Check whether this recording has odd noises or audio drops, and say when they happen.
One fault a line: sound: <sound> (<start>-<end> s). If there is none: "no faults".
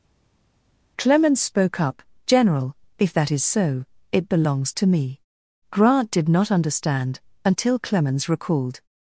no faults